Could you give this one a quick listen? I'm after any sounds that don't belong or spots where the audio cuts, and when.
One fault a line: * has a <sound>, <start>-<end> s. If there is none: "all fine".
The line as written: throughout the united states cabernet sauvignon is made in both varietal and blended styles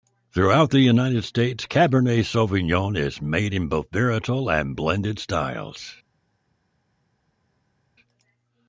all fine